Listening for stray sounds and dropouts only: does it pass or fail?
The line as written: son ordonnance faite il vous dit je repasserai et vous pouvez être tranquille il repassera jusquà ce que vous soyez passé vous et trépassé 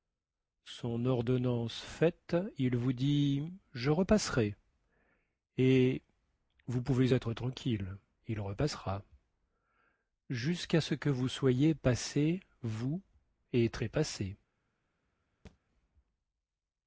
fail